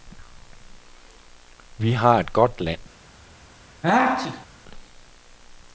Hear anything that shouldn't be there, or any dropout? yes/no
yes